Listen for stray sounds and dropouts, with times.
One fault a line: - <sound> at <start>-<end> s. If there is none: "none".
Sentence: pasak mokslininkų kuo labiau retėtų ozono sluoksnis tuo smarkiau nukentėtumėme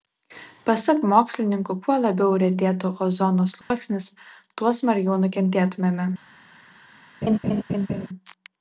- dropout at 3.6-3.7 s
- laugh at 7.2-8.1 s